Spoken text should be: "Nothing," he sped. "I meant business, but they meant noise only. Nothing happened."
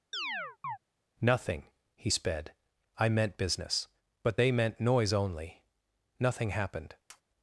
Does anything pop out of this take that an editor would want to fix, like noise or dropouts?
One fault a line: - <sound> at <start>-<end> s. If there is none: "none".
- chirp at 0.1-0.8 s
- tap at 7.1-7.2 s